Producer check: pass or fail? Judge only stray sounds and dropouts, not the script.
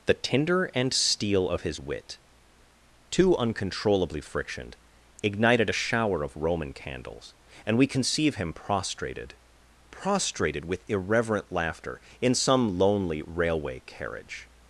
pass